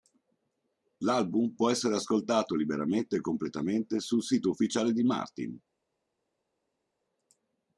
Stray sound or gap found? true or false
false